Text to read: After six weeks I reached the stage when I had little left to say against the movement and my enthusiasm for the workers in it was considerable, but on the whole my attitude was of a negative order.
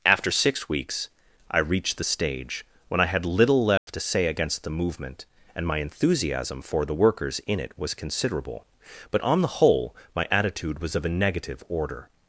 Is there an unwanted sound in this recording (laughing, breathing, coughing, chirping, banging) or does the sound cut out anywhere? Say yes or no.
yes